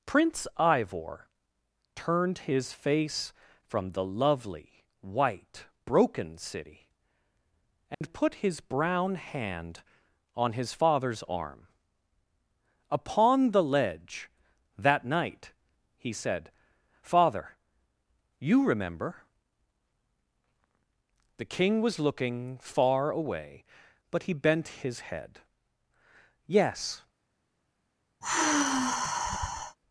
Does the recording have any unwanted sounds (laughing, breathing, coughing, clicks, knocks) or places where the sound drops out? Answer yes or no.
yes